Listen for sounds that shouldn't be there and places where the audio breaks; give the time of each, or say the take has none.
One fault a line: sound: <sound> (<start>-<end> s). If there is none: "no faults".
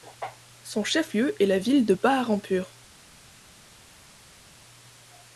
no faults